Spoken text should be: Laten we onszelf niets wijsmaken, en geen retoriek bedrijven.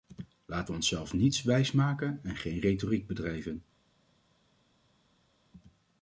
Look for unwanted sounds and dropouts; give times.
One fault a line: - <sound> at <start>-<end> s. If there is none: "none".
none